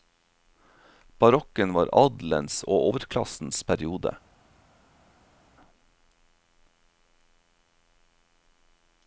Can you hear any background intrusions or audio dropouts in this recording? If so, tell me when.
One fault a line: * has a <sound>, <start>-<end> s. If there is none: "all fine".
all fine